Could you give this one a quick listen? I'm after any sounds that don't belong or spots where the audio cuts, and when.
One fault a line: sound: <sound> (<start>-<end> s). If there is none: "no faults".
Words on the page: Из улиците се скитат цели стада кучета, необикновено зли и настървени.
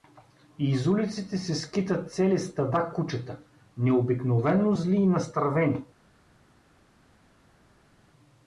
no faults